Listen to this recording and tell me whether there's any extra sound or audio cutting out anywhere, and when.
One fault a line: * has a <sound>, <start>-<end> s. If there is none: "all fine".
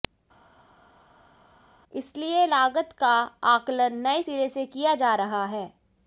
all fine